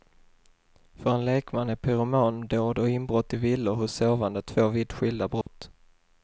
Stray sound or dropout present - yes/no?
yes